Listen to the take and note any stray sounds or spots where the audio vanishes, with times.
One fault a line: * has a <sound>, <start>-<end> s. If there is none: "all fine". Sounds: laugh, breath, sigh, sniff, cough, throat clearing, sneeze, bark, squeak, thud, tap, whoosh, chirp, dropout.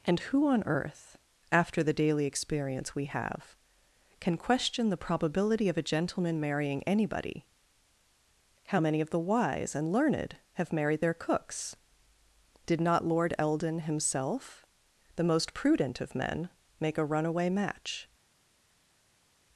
all fine